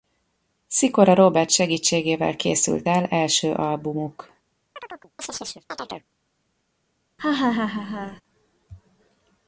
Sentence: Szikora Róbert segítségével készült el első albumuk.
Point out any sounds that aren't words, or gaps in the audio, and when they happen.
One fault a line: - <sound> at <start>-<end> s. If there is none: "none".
- chirp at 4.8-6.1 s
- laugh at 7.2-8.2 s